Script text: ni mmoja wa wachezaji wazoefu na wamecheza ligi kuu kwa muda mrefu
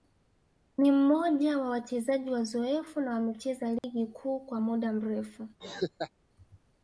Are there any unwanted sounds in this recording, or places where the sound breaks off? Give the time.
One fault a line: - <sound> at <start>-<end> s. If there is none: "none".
- dropout at 3.8-3.8 s
- laugh at 5.6-6.1 s